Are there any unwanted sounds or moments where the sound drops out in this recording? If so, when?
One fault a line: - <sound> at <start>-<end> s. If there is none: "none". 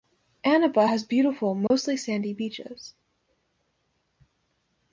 - dropout at 1.7-1.7 s